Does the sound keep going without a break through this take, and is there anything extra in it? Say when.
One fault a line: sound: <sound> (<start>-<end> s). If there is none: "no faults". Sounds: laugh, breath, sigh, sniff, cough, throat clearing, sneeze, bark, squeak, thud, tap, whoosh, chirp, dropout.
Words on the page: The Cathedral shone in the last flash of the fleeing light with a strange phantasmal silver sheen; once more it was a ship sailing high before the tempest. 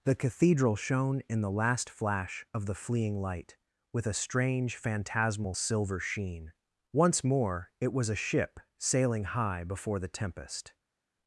no faults